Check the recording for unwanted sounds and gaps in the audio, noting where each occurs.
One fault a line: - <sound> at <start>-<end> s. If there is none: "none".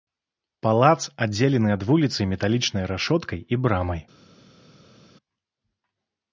none